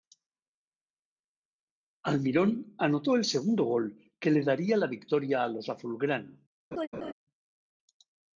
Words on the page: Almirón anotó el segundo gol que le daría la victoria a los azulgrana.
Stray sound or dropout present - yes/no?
yes